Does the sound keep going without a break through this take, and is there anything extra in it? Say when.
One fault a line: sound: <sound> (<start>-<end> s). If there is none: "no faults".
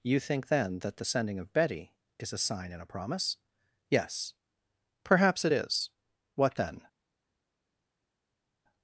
no faults